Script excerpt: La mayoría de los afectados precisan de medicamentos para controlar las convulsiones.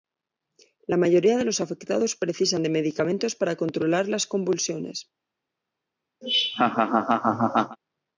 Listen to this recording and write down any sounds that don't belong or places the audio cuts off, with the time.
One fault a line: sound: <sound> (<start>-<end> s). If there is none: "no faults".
sound: laugh (6.2-7.8 s)